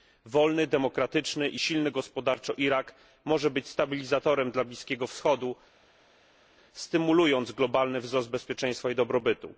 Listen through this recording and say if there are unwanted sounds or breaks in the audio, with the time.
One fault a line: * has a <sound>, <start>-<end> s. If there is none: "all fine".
all fine